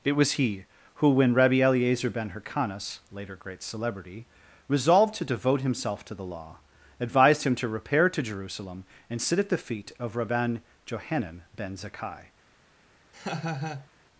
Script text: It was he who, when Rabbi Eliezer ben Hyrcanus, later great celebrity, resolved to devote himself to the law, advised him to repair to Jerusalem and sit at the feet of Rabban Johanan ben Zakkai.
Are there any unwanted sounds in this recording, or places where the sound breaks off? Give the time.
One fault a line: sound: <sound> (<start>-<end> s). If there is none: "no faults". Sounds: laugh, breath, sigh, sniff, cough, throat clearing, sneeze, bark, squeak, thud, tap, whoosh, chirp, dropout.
sound: laugh (13.1-13.9 s)